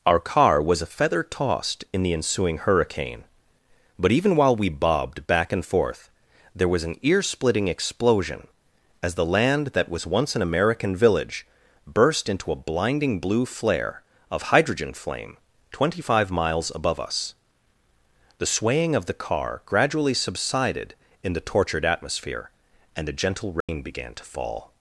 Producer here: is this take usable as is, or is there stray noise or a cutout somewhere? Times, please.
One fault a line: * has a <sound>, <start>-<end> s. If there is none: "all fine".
* has a dropout, 23.6-23.7 s